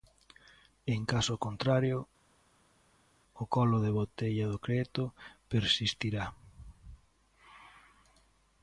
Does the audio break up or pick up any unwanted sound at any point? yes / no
no